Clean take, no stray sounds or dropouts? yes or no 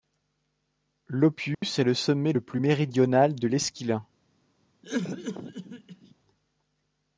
no